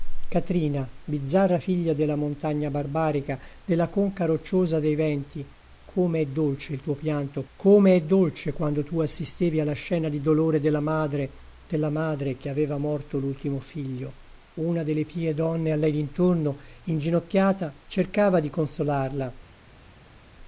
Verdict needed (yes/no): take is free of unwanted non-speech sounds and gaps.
yes